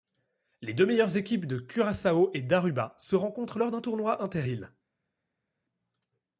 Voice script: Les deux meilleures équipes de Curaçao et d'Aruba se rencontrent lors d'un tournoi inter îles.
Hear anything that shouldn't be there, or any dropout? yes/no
no